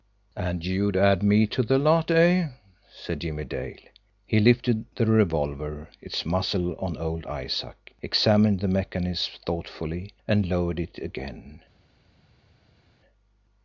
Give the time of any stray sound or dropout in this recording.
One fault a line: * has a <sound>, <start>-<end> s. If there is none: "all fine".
all fine